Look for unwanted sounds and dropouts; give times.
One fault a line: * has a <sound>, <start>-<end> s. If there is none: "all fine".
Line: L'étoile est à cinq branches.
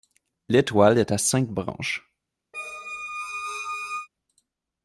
* has a squeak, 2.5-4.1 s